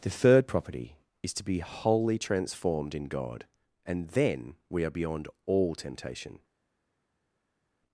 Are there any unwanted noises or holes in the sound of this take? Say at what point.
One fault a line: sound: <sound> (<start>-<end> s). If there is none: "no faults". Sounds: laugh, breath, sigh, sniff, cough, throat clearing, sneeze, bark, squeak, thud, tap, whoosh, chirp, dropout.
no faults